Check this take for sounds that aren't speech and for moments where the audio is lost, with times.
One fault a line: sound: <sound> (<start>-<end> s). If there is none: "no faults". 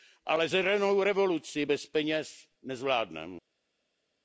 no faults